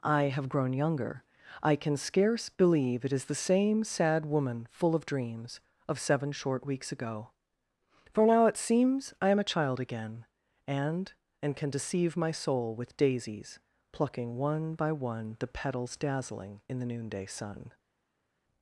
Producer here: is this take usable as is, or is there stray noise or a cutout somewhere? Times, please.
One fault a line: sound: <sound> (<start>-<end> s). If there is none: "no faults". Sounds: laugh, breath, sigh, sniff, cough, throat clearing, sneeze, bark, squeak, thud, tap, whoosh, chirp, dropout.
no faults